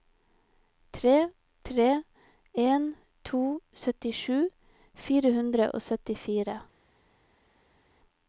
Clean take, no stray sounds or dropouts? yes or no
yes